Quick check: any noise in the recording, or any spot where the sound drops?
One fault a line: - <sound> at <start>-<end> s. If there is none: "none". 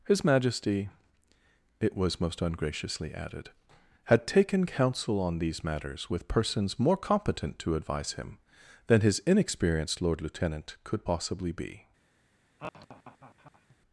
- laugh at 12.6-13.8 s